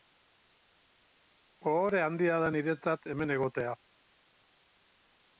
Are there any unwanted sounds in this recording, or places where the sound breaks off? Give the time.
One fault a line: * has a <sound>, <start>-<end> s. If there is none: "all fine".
all fine